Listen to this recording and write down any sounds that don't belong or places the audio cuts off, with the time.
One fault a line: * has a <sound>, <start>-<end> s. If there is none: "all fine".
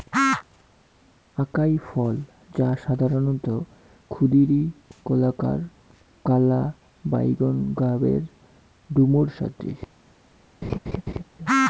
* has a laugh, 10.6-11.2 s